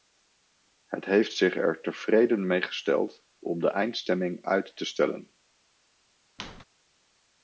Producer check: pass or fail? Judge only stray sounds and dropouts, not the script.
fail